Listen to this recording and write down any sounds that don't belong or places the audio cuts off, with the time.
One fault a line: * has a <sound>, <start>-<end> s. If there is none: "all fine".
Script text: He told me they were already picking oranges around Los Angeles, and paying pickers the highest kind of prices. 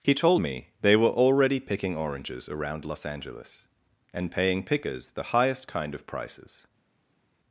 all fine